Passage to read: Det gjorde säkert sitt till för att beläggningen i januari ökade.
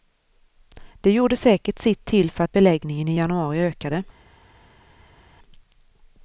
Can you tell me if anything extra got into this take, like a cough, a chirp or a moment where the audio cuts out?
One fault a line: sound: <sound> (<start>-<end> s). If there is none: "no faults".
no faults